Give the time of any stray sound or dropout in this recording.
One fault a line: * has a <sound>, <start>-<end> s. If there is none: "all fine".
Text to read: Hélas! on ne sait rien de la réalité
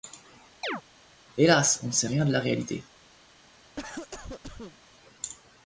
* has a chirp, 0.6-0.8 s
* has a cough, 3.8-4.8 s